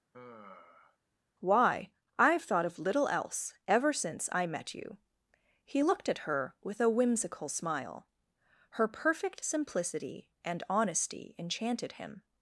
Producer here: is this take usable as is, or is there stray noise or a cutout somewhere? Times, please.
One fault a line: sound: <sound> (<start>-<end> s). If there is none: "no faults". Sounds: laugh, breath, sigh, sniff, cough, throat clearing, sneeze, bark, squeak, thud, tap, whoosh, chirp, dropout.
sound: sigh (0.1-1.0 s)